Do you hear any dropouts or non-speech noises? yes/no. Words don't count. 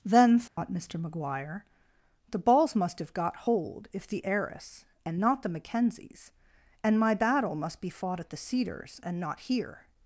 yes